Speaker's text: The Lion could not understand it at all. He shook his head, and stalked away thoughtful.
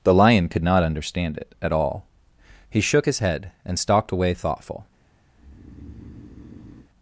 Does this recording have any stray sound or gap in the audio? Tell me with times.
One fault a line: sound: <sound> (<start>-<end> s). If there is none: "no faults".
sound: breath (5.3-6.9 s)